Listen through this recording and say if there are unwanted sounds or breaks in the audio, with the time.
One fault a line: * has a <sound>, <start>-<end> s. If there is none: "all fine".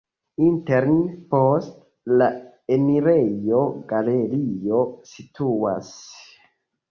all fine